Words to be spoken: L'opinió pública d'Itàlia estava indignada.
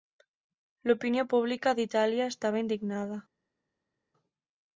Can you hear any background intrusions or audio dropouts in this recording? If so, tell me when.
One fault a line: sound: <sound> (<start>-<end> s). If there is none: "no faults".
no faults